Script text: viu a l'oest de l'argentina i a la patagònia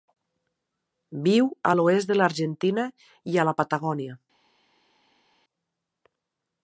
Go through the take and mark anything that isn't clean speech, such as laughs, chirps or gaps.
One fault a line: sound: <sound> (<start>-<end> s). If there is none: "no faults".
no faults